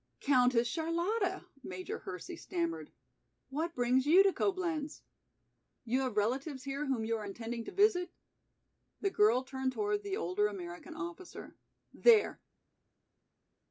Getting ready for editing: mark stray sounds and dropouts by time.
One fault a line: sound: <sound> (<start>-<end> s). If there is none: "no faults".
no faults